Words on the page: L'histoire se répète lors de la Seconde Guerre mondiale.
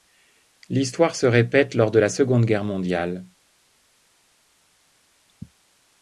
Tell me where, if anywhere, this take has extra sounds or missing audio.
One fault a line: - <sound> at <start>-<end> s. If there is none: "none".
none